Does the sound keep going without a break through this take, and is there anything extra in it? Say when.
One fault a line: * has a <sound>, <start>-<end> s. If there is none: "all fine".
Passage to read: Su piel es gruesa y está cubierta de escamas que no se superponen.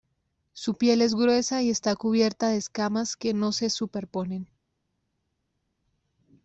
all fine